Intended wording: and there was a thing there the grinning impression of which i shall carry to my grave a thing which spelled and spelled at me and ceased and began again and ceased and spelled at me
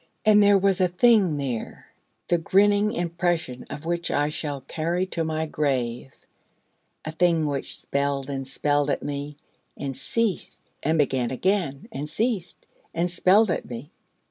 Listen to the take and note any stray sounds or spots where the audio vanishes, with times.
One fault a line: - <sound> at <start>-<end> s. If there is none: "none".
none